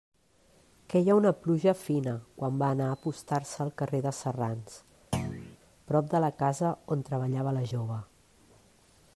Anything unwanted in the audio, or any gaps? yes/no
yes